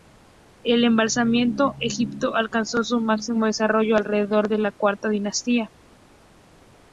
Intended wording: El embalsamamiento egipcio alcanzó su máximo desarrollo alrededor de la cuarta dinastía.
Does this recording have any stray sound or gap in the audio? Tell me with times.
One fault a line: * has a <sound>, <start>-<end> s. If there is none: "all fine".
all fine